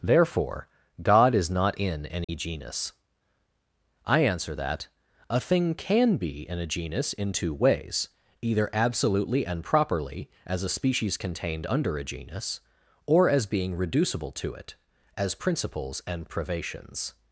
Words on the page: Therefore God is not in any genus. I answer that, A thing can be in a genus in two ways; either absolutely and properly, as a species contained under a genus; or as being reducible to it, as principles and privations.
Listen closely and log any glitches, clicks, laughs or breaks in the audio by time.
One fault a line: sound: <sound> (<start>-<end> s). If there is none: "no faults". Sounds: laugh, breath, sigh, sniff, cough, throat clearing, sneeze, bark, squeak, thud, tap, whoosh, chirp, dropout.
sound: dropout (2.2-2.3 s)